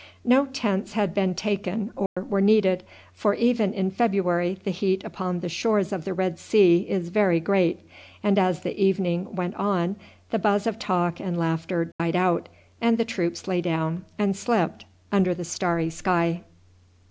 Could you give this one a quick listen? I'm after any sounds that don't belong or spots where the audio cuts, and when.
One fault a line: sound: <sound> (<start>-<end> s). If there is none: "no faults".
sound: dropout (2.1-2.2 s)
sound: dropout (11.9-12.0 s)